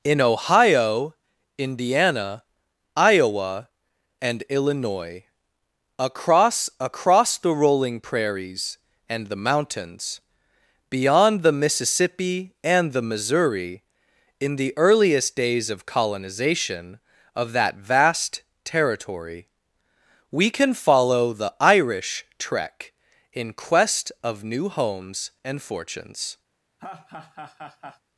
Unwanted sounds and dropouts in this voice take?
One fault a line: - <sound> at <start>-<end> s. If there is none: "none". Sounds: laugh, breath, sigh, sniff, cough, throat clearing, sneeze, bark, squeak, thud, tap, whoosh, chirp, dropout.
- laugh at 26.8-28.0 s